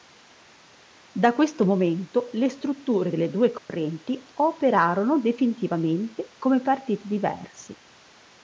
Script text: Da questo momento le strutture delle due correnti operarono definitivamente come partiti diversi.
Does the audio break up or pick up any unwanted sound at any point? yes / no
yes